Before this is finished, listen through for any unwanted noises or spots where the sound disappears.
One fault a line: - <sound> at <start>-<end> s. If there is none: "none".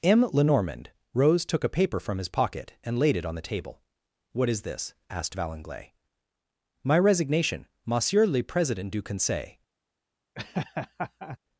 - laugh at 10.4-11.4 s